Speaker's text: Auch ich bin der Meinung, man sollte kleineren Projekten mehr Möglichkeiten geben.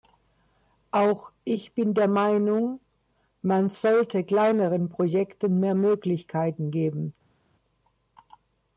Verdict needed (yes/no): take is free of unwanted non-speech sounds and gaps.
yes